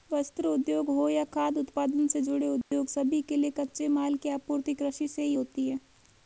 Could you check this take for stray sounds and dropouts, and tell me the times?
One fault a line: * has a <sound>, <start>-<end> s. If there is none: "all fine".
* has a dropout, 2.6-2.7 s